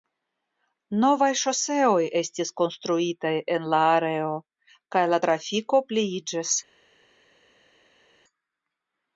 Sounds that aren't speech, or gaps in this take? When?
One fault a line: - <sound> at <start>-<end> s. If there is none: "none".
none